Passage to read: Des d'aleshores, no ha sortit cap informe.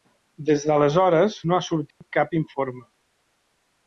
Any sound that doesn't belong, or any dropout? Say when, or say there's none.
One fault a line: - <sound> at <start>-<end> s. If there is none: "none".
- dropout at 1.9-2.0 s